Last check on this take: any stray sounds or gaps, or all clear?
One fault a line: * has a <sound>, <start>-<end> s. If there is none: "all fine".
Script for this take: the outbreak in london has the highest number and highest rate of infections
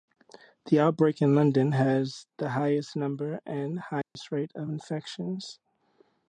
* has a dropout, 4.0-4.2 s